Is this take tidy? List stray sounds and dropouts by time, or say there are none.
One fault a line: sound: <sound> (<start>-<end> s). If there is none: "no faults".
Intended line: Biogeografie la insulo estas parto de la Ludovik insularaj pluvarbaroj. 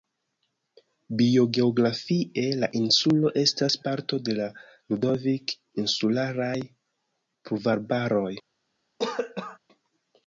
sound: cough (9.0-9.6 s)